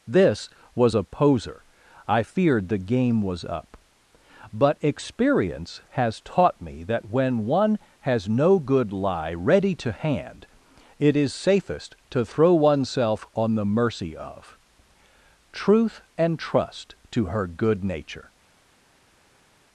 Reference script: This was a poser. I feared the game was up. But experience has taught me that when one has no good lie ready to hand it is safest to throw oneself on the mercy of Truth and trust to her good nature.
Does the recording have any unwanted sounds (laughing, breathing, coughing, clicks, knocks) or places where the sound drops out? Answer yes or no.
no